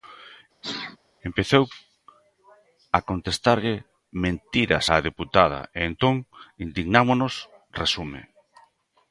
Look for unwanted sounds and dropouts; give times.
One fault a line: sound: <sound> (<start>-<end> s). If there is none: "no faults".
sound: sneeze (0.6-1.0 s)